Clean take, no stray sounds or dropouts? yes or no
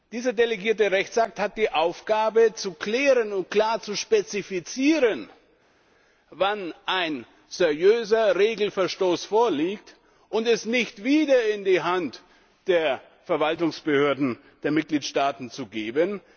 yes